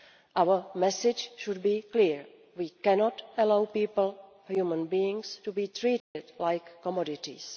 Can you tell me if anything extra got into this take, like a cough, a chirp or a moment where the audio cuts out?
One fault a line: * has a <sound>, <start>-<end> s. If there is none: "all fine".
* has a dropout, 6.0-6.1 s